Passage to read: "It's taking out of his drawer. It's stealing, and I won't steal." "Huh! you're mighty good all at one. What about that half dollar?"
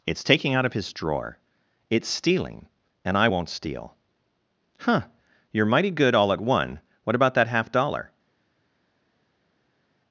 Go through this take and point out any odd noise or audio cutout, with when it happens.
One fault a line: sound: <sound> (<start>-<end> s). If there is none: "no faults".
no faults